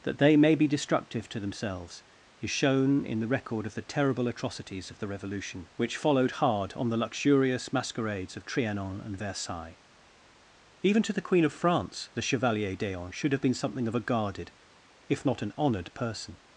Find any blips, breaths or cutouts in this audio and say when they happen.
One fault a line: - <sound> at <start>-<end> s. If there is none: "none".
none